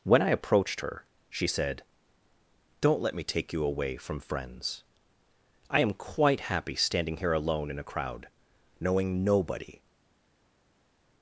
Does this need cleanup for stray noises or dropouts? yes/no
no